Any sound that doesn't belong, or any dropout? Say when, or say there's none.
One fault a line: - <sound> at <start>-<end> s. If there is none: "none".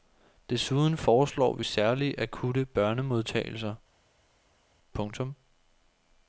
none